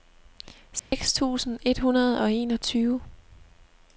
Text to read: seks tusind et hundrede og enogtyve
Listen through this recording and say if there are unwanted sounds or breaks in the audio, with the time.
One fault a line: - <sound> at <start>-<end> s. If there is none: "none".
- dropout at 0.8-0.9 s